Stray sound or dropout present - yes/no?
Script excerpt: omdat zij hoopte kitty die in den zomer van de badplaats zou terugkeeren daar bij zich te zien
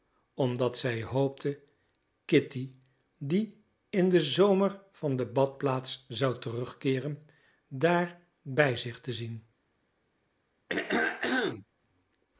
yes